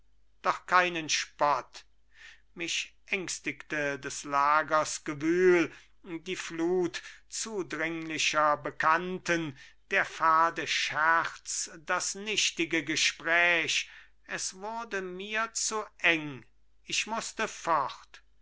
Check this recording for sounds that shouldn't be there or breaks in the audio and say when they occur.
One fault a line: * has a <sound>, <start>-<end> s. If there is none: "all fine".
all fine